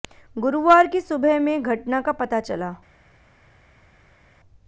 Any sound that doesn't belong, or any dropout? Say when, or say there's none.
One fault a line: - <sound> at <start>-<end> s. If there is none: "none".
none